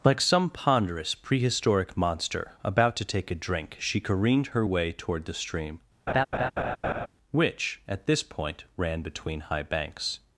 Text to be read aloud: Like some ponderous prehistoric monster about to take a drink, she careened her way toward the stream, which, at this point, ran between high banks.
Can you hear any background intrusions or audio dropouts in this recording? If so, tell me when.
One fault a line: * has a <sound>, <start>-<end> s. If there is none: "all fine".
* has a laugh, 6.1-7.1 s